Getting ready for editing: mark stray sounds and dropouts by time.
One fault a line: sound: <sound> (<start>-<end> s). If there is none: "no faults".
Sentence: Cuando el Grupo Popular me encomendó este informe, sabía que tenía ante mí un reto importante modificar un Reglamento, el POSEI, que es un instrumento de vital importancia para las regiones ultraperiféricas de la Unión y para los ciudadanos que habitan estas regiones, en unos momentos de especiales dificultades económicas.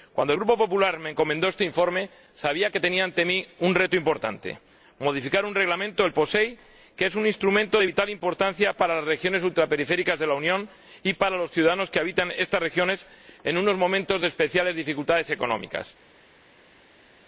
no faults